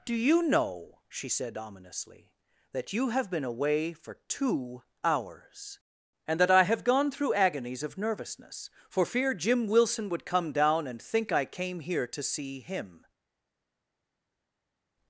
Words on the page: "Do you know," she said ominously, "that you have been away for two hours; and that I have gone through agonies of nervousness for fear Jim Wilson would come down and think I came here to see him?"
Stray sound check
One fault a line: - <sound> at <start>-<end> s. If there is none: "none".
none